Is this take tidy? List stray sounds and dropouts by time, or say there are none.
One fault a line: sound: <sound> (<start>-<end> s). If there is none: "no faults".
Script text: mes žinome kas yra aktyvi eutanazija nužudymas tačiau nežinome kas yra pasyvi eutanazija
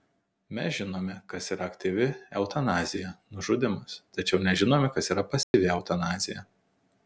sound: dropout (5.4-5.5 s)